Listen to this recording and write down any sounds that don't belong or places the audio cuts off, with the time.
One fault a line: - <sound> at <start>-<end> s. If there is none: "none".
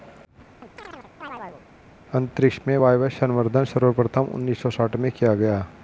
- chirp at 0.6-1.6 s